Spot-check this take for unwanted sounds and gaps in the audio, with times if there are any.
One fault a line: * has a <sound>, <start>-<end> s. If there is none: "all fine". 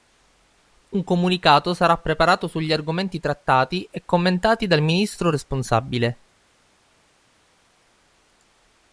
all fine